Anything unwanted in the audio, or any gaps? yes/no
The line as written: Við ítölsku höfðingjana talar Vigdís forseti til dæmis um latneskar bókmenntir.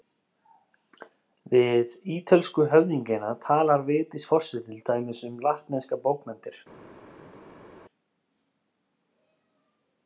no